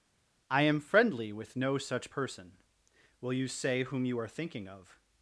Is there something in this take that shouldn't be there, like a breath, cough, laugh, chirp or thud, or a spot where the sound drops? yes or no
no